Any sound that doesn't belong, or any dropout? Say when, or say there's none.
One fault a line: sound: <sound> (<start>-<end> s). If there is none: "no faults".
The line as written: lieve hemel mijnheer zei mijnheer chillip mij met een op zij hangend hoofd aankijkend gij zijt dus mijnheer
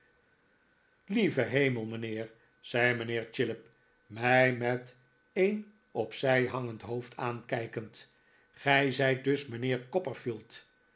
no faults